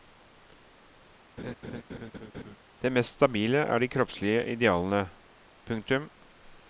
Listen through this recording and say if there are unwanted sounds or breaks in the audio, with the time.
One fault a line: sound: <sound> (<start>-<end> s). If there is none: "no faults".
sound: laugh (1.4-2.6 s)